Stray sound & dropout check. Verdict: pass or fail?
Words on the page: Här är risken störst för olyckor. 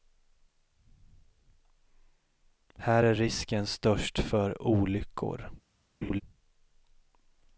fail